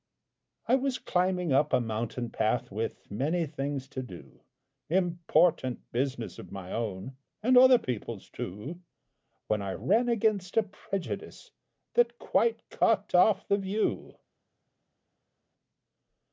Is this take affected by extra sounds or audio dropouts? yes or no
no